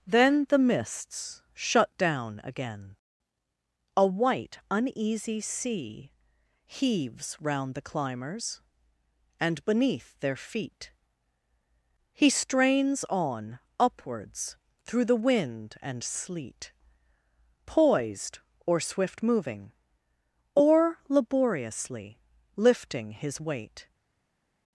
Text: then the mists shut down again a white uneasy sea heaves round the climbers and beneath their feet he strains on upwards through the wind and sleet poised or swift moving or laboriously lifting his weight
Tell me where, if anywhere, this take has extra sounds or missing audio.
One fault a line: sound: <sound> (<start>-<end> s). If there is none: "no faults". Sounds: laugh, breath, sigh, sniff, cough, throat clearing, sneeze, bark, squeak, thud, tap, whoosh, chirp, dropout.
no faults